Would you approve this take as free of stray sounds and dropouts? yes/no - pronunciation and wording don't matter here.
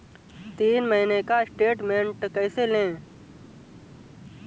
yes